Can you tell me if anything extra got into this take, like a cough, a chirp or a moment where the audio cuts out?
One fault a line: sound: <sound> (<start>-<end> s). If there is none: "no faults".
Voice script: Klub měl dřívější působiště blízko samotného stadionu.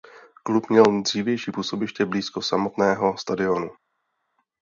no faults